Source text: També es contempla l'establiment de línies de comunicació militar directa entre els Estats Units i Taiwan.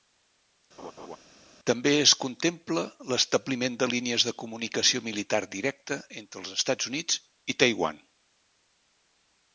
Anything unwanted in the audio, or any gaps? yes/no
yes